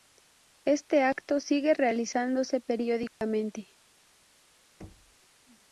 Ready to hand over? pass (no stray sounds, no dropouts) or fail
fail